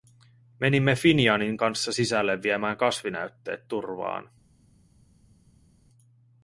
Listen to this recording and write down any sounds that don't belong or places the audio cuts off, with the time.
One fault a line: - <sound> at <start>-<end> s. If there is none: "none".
none